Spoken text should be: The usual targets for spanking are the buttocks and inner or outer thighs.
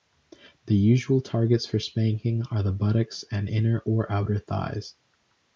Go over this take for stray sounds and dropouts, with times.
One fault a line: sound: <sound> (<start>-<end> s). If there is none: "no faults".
no faults